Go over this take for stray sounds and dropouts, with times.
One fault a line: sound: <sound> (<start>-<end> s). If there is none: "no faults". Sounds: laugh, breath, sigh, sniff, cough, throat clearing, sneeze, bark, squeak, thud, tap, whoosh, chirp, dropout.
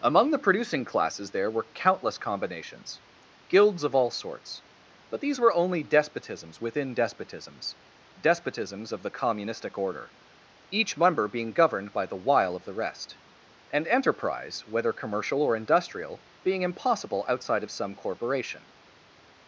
no faults